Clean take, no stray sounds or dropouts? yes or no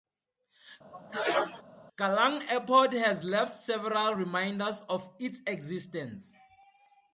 no